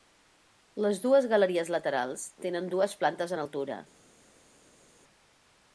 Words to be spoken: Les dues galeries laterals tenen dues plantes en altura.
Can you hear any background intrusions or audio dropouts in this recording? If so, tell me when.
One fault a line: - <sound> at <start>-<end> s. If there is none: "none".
none